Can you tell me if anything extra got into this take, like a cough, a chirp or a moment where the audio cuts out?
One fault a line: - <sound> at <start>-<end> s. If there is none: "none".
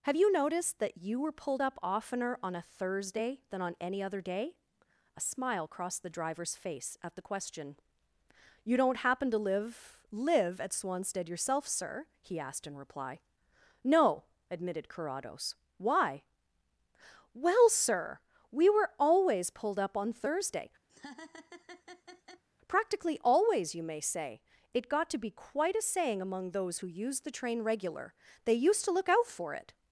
- laugh at 20.9-22.4 s